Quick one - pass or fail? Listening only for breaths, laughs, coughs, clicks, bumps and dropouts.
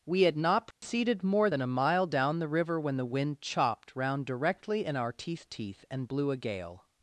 fail